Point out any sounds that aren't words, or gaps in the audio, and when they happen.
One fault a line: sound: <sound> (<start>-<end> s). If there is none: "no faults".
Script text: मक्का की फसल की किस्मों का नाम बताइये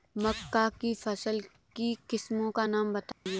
sound: dropout (3.1-3.3 s)